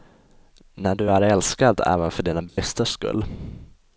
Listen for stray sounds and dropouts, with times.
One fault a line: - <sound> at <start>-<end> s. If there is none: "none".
- dropout at 2.5-2.6 s